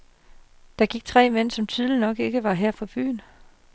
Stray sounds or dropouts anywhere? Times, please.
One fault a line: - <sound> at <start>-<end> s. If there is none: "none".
none